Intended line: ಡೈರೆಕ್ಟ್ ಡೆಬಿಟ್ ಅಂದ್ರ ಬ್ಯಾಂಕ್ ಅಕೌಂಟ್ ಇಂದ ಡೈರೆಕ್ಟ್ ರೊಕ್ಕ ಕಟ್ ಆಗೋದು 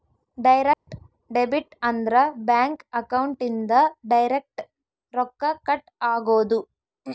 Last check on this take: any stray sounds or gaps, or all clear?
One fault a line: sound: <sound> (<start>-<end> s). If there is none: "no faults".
sound: dropout (0.7-0.9 s)